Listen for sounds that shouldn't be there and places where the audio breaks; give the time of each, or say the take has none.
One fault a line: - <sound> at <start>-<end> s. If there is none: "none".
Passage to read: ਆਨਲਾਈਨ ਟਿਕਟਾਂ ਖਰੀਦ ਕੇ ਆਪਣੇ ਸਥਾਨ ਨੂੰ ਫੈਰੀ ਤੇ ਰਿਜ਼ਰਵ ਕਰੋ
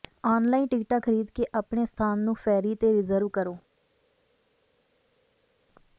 none